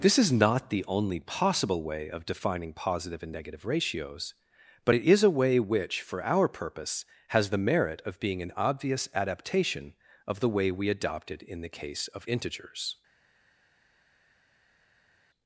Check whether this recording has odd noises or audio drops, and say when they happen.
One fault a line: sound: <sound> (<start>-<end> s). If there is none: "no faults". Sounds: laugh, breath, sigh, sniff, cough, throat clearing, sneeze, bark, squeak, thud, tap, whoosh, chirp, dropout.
no faults